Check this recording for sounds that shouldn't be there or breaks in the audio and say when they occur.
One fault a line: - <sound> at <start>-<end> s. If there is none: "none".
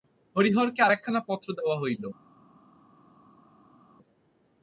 none